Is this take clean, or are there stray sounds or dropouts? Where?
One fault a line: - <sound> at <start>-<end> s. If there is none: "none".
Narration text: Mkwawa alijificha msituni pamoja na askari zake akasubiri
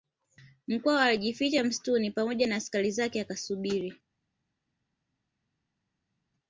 none